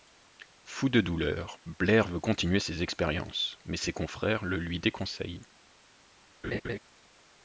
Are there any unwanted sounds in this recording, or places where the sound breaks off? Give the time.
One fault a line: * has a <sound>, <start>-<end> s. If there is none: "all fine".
* has a laugh, 6.4-6.8 s